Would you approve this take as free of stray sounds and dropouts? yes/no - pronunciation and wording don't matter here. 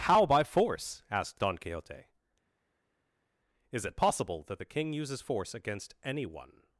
yes